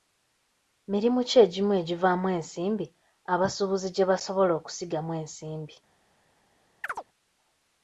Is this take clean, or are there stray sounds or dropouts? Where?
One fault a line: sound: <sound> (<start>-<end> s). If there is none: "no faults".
sound: chirp (6.8-7.0 s)